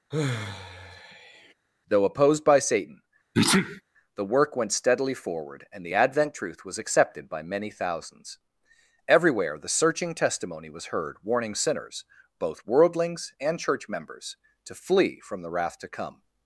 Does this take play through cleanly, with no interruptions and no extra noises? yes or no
no